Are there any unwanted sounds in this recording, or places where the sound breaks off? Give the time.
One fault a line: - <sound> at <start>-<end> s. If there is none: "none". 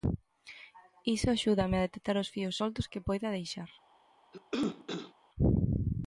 - cough at 4.3-5.1 s